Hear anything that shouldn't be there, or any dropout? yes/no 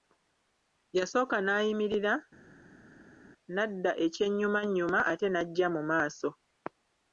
no